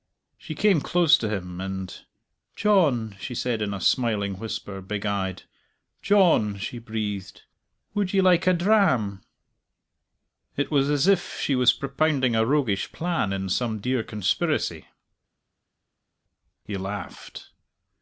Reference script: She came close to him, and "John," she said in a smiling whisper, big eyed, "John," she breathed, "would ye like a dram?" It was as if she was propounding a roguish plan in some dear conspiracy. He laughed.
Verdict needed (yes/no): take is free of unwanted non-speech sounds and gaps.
yes